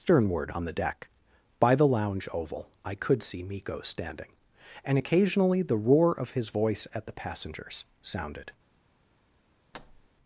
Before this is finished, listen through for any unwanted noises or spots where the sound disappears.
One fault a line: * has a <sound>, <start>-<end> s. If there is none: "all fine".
* has a thud, 9.7-10.1 s